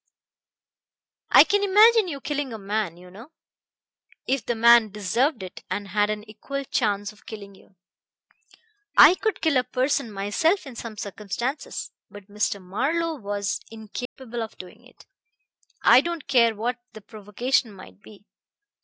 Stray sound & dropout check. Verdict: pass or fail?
fail